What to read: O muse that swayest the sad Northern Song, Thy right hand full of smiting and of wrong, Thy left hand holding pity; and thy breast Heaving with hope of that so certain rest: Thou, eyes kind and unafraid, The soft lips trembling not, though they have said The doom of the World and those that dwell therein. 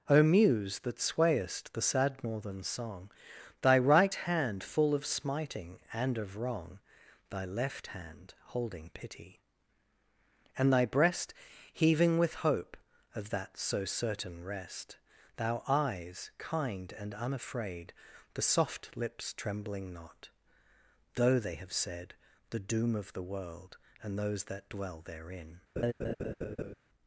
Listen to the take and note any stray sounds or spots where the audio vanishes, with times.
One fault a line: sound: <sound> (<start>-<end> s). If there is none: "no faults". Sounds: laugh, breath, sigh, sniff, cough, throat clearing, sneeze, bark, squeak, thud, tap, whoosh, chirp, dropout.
sound: laugh (25.8-26.7 s)